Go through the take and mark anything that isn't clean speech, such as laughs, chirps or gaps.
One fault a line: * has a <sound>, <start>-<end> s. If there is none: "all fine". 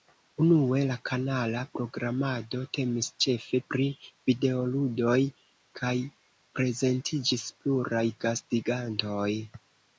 all fine